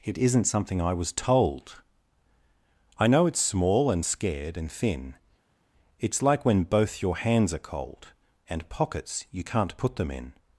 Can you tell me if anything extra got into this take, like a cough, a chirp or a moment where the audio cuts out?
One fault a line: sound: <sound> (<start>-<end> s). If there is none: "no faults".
no faults